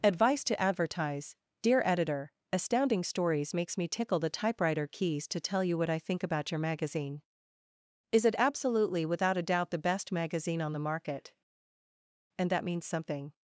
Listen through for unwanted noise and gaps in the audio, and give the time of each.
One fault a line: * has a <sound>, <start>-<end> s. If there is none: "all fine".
all fine